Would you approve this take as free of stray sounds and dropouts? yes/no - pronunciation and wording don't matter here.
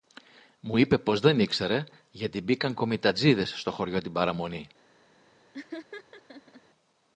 no